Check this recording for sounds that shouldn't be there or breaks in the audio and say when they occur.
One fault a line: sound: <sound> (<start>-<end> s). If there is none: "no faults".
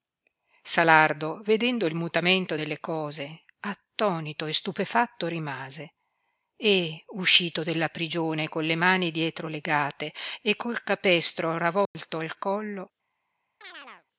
sound: dropout (11.9-11.9 s)
sound: chirp (13.6-14.1 s)